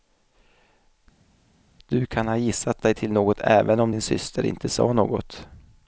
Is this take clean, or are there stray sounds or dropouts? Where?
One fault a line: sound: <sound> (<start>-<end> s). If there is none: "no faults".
no faults